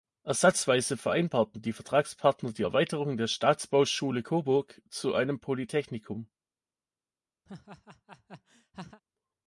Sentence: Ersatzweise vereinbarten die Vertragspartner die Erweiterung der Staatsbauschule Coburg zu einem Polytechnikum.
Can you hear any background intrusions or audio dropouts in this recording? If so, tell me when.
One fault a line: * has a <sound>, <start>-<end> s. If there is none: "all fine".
* has a laugh, 7.5-9.0 s